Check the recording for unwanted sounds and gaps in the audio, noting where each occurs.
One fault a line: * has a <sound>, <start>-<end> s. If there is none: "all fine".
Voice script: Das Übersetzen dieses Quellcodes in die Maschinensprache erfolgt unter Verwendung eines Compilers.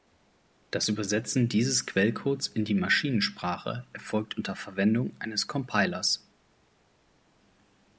all fine